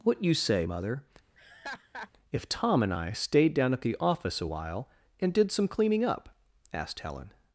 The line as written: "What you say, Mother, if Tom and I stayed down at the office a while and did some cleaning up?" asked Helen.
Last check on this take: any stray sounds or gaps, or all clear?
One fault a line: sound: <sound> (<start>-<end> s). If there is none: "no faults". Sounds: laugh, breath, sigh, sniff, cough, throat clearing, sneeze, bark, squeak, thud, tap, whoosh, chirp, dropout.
sound: laugh (1.3-2.1 s)